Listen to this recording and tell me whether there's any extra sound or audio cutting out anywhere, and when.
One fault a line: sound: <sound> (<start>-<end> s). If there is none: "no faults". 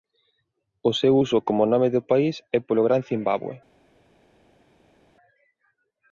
no faults